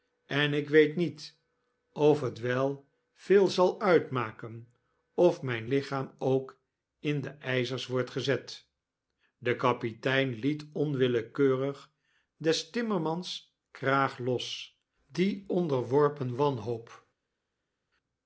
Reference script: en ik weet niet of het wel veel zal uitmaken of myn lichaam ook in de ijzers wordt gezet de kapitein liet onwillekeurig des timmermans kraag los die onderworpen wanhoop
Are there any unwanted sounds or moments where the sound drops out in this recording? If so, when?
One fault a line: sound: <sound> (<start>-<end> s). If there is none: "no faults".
no faults